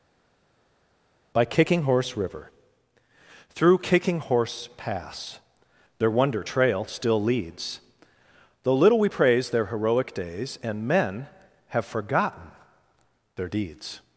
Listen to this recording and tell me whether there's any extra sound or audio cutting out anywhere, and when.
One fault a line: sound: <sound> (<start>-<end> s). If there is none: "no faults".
no faults